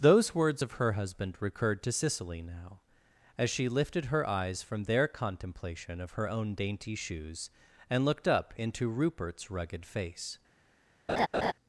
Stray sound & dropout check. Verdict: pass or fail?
fail